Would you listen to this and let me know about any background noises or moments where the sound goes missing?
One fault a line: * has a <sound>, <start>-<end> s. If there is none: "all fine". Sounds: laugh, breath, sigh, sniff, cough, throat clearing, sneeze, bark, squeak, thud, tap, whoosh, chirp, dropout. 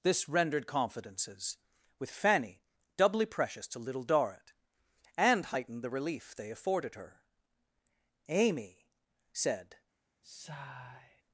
* has a sigh, 10.2-11.2 s